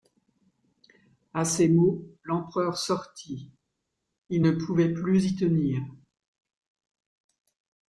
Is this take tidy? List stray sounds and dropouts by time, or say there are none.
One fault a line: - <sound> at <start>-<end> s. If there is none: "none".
none